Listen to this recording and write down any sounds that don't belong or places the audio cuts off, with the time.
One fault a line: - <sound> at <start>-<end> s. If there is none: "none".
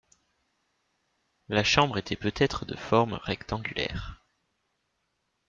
none